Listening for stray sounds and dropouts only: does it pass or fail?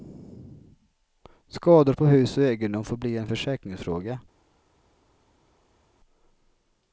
pass